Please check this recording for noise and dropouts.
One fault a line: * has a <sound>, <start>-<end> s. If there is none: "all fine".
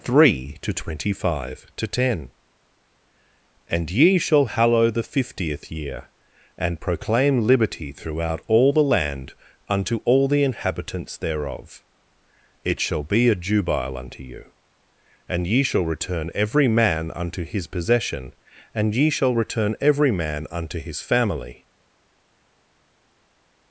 all fine